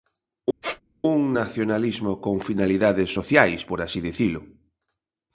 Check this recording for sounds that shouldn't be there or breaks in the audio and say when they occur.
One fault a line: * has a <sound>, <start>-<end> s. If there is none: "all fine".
* has a squeak, 0.6-0.8 s